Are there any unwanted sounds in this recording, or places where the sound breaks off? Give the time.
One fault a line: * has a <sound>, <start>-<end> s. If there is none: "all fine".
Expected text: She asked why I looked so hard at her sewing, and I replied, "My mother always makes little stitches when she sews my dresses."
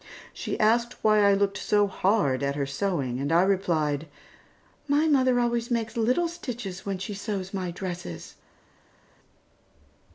all fine